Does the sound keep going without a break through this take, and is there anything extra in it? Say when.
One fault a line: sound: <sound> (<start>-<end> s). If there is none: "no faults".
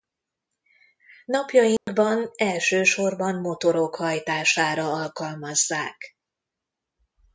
sound: dropout (1.8-1.9 s)